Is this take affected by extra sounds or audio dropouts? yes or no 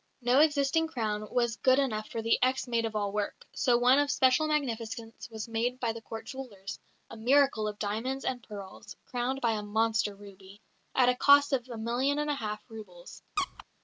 yes